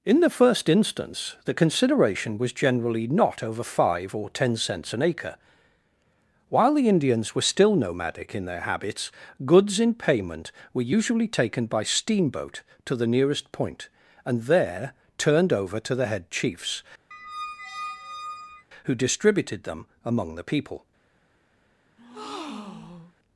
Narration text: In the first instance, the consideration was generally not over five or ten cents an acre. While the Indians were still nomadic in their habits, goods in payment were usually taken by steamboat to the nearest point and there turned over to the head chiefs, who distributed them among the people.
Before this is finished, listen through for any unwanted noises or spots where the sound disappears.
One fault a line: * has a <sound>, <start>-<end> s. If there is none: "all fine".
* has a squeak, 17.1-18.7 s
* has a breath, 22.0-23.1 s